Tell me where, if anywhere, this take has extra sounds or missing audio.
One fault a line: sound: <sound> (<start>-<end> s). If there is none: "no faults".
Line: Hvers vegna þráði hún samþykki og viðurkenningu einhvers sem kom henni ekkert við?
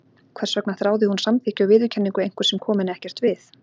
no faults